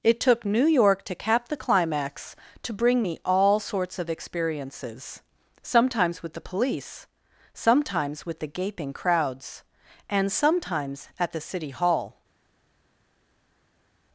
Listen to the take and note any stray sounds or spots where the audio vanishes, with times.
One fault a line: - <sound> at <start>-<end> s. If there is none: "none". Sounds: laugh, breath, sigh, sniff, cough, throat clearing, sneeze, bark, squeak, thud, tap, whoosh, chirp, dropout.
none